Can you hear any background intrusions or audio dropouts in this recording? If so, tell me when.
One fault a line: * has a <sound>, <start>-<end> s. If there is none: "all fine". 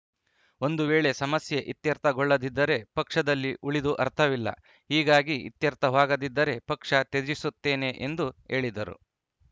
all fine